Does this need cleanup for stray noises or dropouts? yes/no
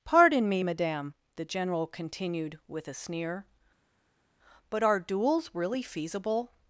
no